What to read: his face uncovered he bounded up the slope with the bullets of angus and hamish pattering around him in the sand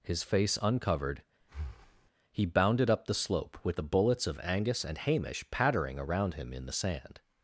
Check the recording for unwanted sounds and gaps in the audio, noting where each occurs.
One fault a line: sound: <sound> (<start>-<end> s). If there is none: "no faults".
sound: breath (1.4-2.1 s)